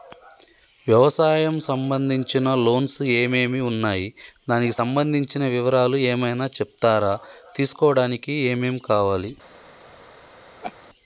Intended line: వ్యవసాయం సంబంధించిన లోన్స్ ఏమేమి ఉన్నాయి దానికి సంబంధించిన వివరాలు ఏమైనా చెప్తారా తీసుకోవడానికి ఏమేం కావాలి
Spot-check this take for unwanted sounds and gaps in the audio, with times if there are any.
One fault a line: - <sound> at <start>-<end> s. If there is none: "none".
- laugh at 10.6-10.7 s